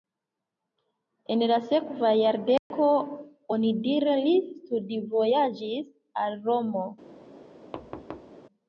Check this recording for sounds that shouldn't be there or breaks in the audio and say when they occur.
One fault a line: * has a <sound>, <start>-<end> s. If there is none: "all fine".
* has a dropout, 2.6-2.7 s
* has a thud, 7.7-8.4 s